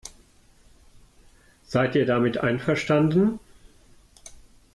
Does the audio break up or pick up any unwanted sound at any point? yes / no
no